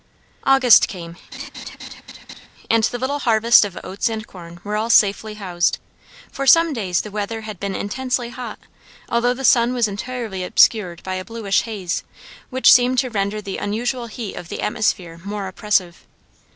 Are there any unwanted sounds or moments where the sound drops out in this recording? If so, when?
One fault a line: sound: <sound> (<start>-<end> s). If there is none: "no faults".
sound: laugh (1.3-2.5 s)